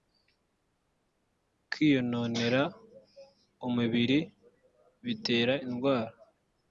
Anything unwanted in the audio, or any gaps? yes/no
no